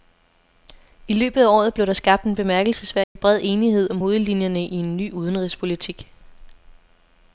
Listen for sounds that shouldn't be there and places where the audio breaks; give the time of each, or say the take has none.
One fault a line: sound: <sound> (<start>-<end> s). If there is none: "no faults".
sound: dropout (3.0-3.2 s)